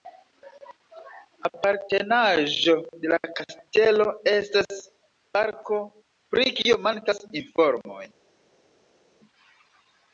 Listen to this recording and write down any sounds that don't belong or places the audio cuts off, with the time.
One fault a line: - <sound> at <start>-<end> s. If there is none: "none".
none